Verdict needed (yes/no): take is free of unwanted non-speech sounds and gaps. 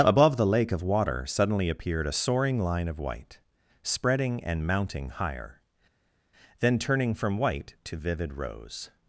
yes